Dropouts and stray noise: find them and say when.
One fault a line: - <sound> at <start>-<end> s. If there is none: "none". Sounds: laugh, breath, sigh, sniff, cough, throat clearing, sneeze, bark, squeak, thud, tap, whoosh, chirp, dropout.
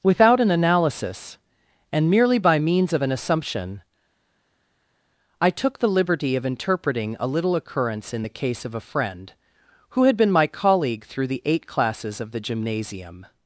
none